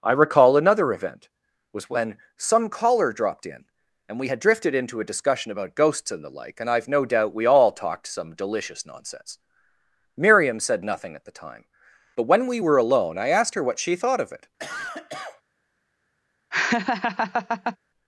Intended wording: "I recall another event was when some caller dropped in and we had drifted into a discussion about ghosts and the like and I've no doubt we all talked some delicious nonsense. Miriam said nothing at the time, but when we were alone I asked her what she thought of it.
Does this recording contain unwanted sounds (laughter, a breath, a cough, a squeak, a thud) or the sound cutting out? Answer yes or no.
yes